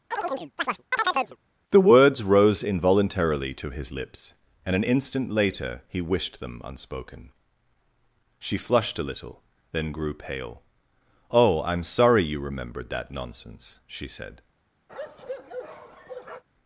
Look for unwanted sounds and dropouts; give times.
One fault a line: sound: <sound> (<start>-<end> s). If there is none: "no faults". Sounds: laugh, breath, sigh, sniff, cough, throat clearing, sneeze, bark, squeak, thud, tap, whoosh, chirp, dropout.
sound: chirp (0.1-1.4 s)
sound: bark (14.9-16.4 s)